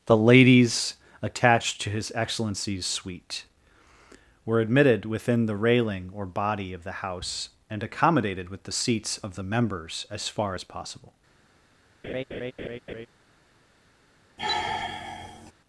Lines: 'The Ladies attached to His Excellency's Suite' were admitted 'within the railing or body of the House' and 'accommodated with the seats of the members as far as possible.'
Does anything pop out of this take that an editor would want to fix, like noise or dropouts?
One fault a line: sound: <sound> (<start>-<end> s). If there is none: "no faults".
sound: laugh (12.0-13.1 s)
sound: sigh (14.4-15.5 s)